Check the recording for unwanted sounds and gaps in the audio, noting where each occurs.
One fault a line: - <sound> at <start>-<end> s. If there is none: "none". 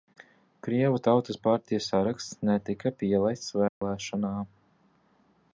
- dropout at 3.7-3.8 s